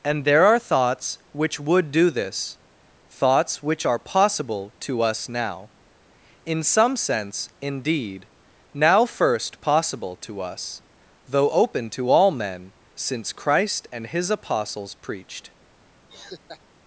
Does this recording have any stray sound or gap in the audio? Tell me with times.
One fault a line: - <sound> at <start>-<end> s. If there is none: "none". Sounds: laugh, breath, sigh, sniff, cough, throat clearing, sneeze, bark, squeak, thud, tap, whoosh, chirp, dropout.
- laugh at 16.1-16.6 s